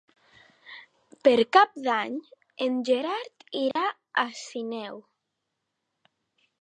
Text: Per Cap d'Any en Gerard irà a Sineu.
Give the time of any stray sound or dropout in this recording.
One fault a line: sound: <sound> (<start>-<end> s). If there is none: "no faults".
sound: dropout (3.7-3.8 s)